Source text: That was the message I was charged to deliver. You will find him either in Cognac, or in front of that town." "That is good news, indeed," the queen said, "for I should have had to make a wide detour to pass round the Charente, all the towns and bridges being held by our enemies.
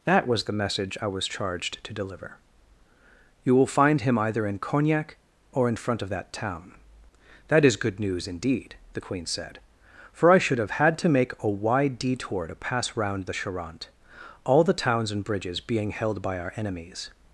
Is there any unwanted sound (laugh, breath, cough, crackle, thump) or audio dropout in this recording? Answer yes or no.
no